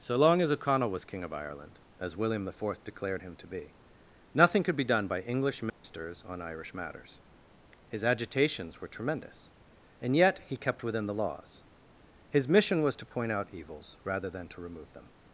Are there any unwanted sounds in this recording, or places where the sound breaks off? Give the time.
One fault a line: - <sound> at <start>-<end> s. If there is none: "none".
- dropout at 5.7-5.8 s